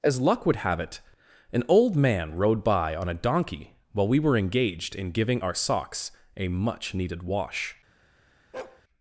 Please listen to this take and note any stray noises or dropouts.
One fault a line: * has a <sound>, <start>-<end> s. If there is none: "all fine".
* has a bark, 8.5-8.8 s